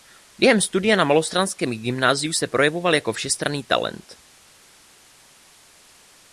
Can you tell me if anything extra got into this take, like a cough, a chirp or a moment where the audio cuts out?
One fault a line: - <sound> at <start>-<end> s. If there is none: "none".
none